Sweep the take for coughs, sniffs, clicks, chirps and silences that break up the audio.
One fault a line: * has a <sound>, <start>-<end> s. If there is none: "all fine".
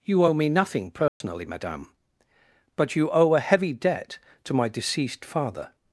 * has a dropout, 1.1-1.2 s